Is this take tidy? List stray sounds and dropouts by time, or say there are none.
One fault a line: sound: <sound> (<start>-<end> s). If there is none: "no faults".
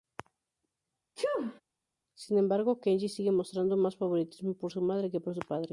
sound: sneeze (1.2-1.6 s)